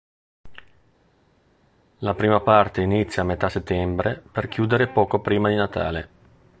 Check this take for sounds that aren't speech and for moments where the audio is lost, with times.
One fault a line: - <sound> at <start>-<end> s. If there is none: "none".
none